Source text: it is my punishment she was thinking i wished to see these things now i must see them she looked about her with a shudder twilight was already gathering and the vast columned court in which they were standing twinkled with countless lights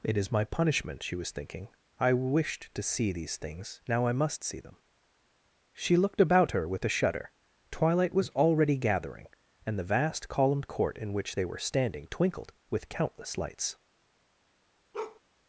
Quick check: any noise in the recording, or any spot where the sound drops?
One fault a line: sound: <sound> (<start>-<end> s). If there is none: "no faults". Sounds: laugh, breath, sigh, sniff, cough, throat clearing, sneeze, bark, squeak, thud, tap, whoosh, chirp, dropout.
sound: bark (14.9-15.2 s)